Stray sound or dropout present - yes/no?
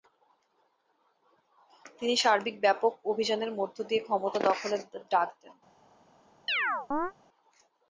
yes